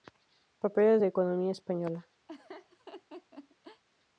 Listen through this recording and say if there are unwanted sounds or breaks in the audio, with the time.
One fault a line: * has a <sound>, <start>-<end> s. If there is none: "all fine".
* has a laugh, 2.3-3.8 s